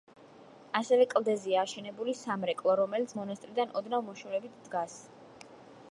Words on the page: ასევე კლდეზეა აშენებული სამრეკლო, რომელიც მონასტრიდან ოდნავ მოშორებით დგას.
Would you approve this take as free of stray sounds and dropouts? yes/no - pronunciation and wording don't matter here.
yes